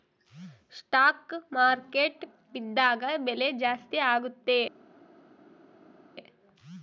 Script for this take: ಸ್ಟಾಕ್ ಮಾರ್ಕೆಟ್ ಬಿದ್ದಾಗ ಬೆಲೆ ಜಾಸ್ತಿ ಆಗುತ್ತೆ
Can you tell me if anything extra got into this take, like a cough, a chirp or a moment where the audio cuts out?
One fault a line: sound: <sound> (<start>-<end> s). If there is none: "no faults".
no faults